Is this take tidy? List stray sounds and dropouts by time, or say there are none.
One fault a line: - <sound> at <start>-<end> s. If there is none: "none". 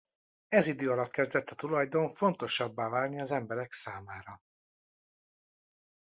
none